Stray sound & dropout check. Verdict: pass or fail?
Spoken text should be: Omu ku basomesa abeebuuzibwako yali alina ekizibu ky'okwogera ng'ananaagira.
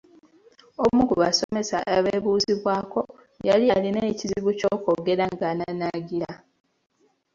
fail